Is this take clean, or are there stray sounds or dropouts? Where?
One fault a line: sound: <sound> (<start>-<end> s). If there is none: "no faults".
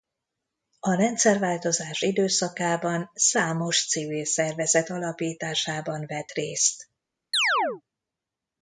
sound: chirp (7.3-7.8 s)